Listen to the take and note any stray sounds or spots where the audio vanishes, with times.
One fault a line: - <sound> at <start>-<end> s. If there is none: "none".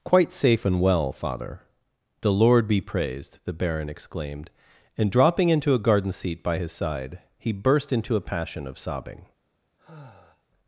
- sigh at 9.8-10.4 s